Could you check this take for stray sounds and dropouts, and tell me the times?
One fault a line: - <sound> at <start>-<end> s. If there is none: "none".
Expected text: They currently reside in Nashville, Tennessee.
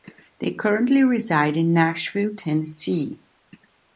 none